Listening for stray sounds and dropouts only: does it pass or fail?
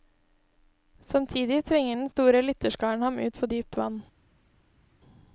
pass